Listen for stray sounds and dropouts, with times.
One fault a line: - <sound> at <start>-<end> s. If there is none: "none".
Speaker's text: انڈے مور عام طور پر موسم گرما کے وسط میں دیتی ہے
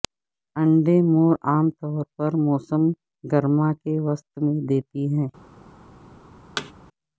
- thud at 6.6-6.7 s